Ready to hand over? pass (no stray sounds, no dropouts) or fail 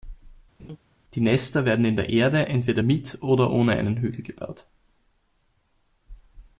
fail